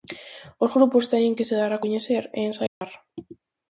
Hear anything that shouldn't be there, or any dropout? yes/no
yes